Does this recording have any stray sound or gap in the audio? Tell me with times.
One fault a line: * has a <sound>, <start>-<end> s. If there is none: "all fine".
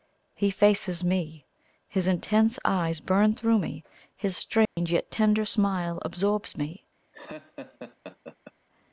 * has a dropout, 4.7-4.8 s
* has a laugh, 7.1-8.5 s